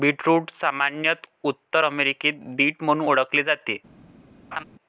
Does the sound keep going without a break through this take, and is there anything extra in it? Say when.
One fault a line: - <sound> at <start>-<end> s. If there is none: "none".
- laugh at 4.5-4.6 s